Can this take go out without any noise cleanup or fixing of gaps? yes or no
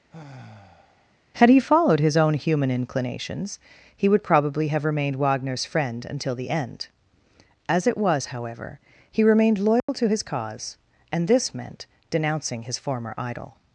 no